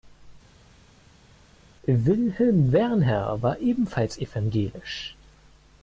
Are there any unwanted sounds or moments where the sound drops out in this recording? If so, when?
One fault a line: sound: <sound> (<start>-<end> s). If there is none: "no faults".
no faults